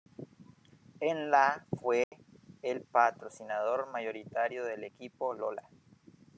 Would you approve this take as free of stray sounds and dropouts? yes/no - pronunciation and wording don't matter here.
no